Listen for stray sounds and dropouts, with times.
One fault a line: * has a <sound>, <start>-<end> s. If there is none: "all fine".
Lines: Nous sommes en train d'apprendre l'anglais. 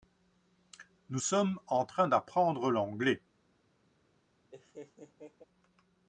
* has a laugh, 4.5-5.4 s